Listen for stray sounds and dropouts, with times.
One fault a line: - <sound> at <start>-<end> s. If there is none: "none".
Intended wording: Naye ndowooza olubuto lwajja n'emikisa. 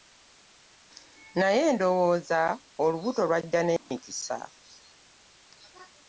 - dropout at 3.8-3.9 s